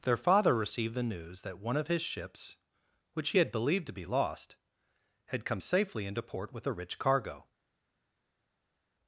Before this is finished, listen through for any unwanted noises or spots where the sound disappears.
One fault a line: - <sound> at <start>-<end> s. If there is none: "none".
none